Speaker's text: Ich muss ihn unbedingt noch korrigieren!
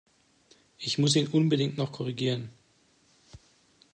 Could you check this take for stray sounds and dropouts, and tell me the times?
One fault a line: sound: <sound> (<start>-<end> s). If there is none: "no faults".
no faults